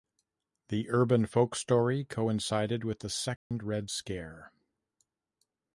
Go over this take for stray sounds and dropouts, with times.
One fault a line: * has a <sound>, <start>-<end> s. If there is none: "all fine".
* has a dropout, 3.4-3.5 s